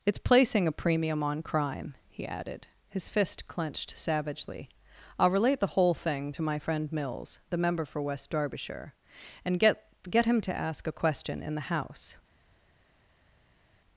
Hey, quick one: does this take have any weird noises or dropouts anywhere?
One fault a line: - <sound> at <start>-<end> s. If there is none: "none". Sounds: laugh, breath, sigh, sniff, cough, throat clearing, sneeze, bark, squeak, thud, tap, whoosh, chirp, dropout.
none